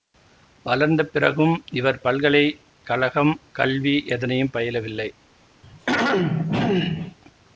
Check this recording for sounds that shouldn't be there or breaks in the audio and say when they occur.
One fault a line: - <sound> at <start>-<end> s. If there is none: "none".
- throat clearing at 5.6-7.2 s